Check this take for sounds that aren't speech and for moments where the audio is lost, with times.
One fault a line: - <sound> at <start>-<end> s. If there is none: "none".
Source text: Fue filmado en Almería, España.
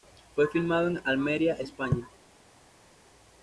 none